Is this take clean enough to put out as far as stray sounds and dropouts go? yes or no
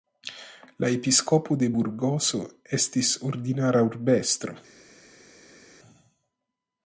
yes